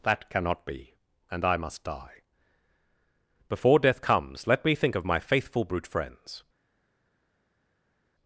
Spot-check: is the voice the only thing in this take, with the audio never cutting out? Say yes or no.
yes